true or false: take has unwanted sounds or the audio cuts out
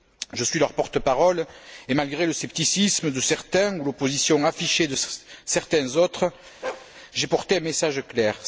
true